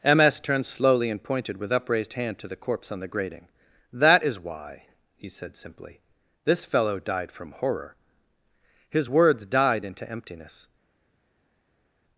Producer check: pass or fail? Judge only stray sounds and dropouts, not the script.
pass